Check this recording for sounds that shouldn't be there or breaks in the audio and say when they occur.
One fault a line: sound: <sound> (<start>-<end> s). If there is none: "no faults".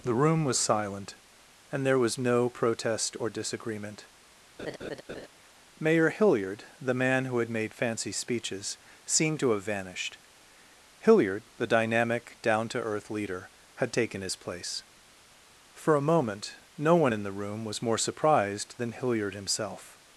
sound: laugh (4.6-5.3 s)